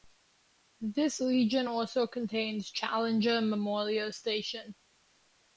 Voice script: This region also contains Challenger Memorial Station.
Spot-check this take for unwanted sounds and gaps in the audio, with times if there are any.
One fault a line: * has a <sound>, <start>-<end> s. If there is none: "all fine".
all fine